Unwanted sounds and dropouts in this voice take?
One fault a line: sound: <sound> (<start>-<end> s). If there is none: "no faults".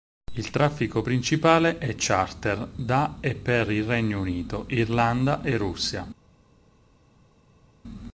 no faults